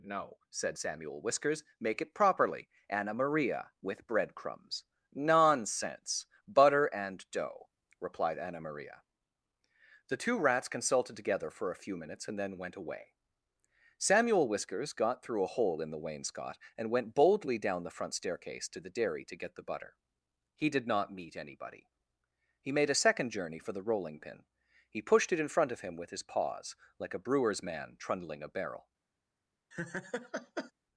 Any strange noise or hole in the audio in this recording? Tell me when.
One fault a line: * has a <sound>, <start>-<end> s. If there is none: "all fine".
* has a laugh, 29.7-30.7 s